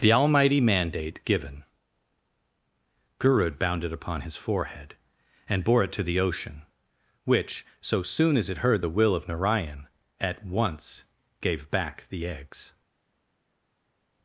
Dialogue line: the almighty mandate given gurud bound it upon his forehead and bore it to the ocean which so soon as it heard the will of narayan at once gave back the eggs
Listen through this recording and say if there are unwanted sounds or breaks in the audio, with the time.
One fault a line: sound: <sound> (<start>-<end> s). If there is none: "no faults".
no faults